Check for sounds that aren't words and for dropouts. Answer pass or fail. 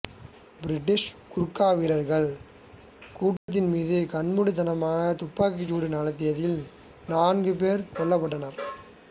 fail